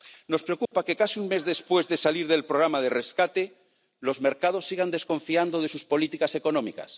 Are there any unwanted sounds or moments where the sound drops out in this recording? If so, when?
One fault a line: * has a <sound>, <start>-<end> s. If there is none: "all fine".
* has a dropout, 0.7-0.7 s